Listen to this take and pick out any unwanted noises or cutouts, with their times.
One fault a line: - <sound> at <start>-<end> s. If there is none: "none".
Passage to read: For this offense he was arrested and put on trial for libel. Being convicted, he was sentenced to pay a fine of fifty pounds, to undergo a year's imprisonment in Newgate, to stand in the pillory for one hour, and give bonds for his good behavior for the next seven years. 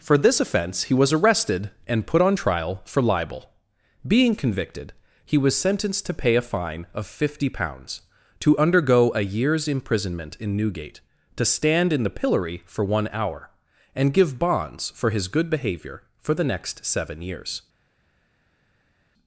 none